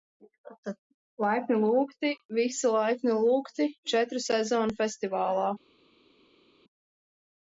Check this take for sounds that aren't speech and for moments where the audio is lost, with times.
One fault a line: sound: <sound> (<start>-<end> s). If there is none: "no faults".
no faults